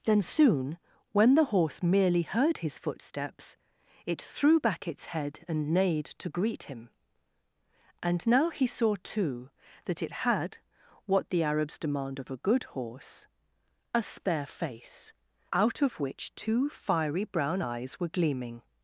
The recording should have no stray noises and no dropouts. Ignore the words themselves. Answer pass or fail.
pass